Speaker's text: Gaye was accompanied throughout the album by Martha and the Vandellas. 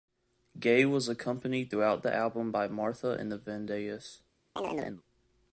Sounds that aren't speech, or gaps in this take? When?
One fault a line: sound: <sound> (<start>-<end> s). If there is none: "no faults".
sound: chirp (4.6-5.0 s)